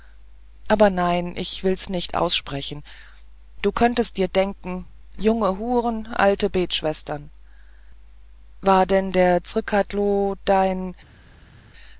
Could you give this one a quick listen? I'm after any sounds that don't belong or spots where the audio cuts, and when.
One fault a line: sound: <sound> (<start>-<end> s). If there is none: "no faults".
no faults